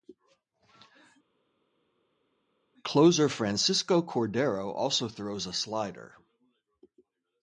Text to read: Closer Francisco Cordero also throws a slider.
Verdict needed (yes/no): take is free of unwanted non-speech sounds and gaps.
yes